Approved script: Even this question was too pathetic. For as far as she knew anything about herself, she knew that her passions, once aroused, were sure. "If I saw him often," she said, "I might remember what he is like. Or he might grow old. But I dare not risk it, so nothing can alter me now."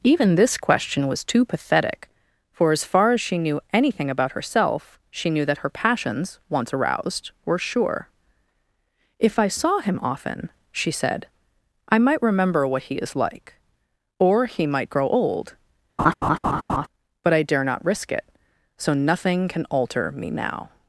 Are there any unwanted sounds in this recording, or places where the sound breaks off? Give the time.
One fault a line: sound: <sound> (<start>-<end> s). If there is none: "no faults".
sound: laugh (16.0-16.9 s)